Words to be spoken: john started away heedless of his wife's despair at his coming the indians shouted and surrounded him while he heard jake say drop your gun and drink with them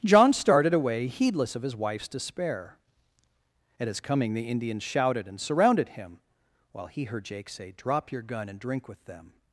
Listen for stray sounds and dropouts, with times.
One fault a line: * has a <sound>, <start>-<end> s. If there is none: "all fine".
all fine